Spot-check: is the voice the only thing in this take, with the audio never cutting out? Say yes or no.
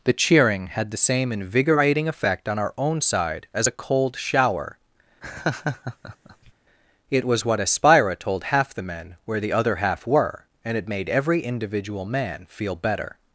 no